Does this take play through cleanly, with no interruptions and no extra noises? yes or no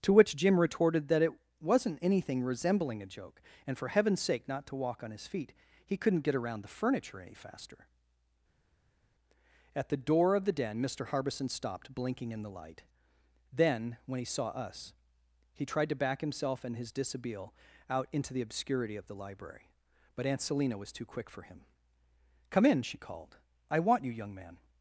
yes